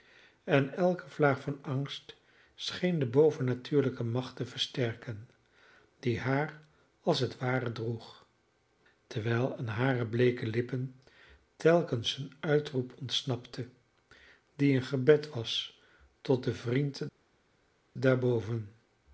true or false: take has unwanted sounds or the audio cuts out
false